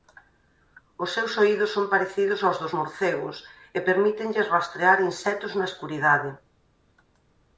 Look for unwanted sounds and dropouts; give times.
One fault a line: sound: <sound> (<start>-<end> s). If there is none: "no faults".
no faults